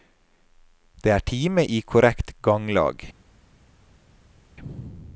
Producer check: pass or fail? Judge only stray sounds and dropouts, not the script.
pass